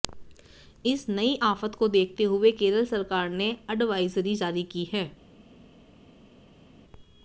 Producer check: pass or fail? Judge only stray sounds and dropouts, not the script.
pass